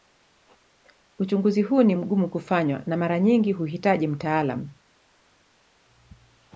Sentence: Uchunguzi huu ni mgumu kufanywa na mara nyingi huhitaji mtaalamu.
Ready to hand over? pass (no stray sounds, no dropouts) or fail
pass